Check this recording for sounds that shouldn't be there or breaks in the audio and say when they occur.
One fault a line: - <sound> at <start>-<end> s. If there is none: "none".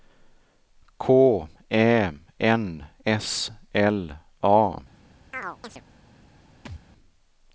- chirp at 5.3-5.8 s
- thud at 6.7-6.8 s